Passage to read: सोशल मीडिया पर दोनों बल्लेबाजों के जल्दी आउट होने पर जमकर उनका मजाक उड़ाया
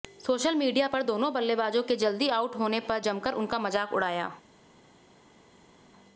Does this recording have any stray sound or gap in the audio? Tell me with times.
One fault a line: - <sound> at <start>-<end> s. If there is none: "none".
none